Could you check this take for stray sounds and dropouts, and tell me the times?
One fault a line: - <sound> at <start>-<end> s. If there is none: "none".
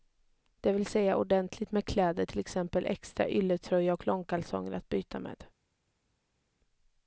none